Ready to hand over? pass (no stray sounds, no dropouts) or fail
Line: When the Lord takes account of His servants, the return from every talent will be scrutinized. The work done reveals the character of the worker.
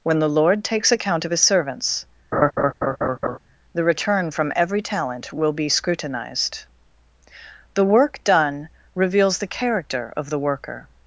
fail